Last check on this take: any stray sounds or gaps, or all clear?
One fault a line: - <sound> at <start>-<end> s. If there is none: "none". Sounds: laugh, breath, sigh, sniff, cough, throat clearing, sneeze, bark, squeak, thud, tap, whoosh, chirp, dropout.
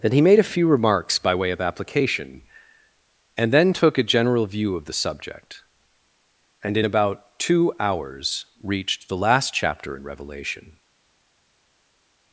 none